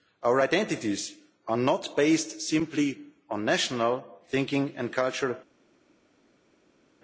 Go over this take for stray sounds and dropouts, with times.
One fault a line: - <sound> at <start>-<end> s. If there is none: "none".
none